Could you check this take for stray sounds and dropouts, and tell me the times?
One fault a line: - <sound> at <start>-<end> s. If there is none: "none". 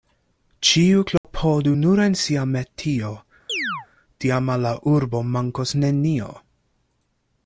- dropout at 1.2-1.2 s
- chirp at 3.5-3.9 s